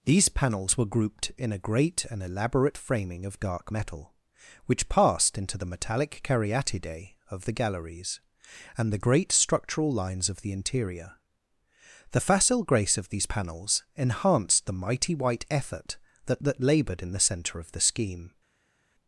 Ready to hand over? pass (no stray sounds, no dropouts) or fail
pass